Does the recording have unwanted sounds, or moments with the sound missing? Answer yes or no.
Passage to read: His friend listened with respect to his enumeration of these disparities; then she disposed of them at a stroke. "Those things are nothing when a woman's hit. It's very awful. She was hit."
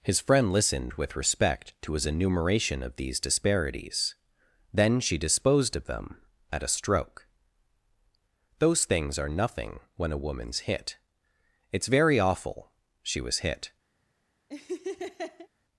yes